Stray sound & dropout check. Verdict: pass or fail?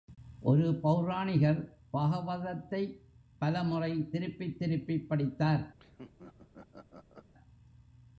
fail